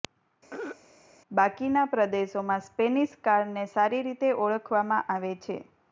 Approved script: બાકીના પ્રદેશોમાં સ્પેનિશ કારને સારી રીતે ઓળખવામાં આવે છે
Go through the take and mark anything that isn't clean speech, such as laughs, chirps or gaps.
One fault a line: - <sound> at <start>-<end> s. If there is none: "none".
- throat clearing at 0.5-0.8 s